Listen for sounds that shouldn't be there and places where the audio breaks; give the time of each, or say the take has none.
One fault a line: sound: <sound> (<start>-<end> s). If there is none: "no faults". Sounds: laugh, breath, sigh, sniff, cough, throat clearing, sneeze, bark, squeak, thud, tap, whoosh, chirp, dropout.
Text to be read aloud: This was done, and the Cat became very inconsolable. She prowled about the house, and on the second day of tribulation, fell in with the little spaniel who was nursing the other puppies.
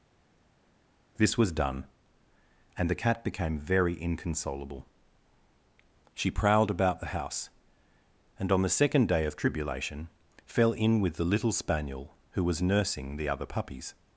no faults